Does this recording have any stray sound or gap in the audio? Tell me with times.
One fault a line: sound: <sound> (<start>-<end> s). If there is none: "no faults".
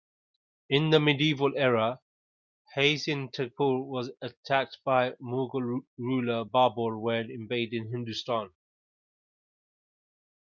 no faults